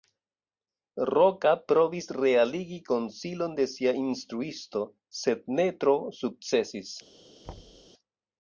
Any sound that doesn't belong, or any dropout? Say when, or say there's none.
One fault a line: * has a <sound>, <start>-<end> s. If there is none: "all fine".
* has a thud, 7.4-7.9 s